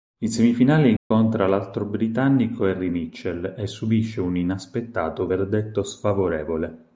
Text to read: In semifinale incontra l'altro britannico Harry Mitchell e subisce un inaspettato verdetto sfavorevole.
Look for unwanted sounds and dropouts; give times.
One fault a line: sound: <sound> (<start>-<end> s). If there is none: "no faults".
sound: dropout (1.0-1.1 s)